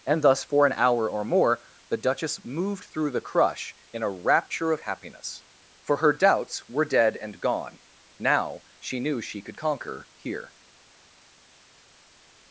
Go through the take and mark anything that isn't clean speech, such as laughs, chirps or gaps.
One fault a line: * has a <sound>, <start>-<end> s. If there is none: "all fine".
all fine